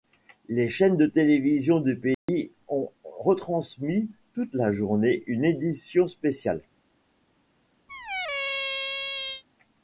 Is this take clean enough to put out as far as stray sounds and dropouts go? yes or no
no